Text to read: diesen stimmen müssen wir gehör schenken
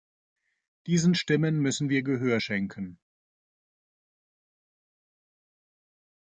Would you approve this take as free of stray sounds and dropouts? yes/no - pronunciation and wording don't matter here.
yes